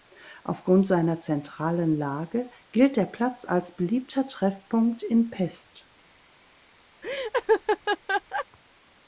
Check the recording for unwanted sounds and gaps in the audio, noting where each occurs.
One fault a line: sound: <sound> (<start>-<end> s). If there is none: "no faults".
sound: laugh (7.0-8.5 s)